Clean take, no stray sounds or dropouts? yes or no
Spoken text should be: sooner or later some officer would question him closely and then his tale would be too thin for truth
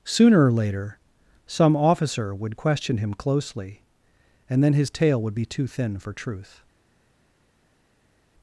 yes